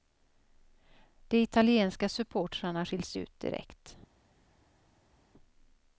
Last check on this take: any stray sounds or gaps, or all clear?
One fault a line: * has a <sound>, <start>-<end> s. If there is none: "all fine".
all fine